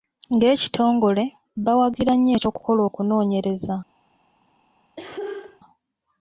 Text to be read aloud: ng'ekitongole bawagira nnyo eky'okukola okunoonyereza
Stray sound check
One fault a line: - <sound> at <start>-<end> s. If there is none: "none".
- cough at 5.0-5.6 s